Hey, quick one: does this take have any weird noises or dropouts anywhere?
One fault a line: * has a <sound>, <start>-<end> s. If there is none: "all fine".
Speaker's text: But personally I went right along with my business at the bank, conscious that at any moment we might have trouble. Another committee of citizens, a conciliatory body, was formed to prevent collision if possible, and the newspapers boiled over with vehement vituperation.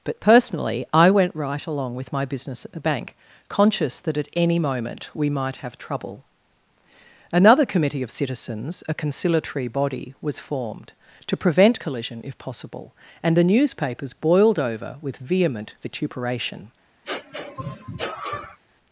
* has a sniff, 17.0-18.6 s